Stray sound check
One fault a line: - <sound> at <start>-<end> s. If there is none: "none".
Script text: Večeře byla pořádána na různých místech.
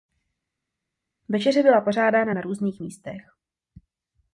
none